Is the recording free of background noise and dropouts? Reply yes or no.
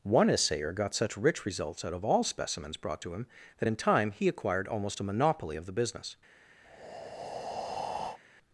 no